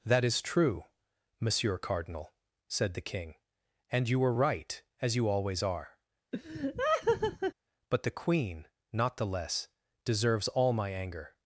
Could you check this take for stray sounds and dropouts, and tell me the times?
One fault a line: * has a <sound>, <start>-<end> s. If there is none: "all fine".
* has a laugh, 6.3-7.5 s